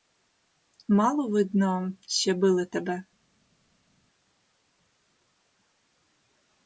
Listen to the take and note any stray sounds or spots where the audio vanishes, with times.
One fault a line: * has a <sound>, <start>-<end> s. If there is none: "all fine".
all fine